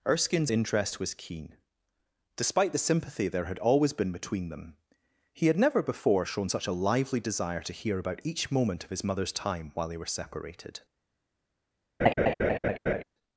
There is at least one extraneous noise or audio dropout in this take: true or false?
true